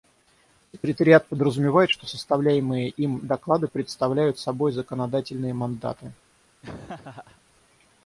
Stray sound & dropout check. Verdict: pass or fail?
fail